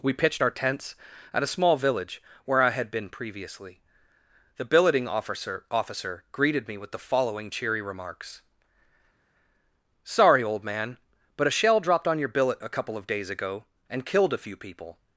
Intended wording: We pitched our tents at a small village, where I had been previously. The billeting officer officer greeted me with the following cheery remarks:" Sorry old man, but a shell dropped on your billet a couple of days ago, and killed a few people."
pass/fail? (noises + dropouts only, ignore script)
pass